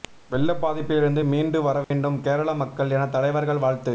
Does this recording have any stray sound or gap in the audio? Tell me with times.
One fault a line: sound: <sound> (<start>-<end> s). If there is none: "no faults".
sound: dropout (1.8-1.9 s)